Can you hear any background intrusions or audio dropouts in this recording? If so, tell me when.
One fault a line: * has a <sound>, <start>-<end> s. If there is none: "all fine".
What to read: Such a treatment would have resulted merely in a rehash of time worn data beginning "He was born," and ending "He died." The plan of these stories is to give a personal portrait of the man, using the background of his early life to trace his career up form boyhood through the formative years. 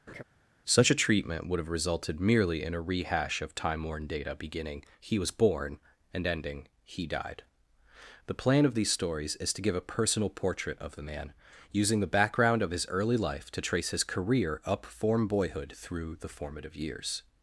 * has a laugh, 0.1-0.2 s